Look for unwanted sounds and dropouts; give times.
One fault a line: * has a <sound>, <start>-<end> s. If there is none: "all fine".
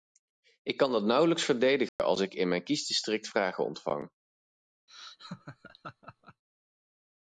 * has a dropout, 1.9-2.0 s
* has a laugh, 4.9-6.4 s